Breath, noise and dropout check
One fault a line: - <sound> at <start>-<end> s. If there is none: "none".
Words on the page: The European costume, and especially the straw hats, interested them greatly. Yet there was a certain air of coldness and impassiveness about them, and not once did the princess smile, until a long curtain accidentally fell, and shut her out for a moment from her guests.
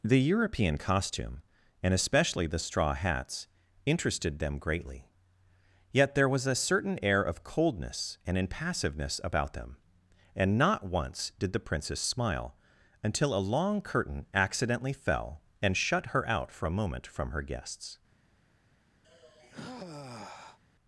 - sigh at 19.0-20.6 s